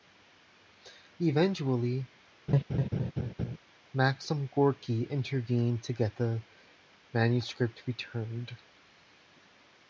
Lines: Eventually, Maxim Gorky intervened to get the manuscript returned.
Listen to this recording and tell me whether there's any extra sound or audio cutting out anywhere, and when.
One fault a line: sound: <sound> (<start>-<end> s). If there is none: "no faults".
sound: laugh (2.5-3.6 s)